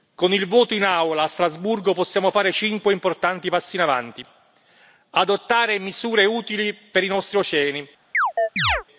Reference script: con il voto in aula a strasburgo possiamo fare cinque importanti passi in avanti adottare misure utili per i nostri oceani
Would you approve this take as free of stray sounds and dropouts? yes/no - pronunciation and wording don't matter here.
no